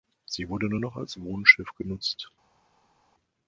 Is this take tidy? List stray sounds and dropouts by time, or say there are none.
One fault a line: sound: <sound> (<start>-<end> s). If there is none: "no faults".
no faults